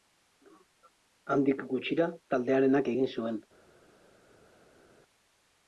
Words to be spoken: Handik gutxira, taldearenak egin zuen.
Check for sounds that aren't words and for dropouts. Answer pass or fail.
pass